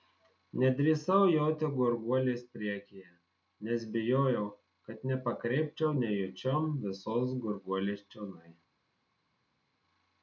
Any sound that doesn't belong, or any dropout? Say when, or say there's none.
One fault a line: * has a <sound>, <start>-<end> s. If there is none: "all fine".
all fine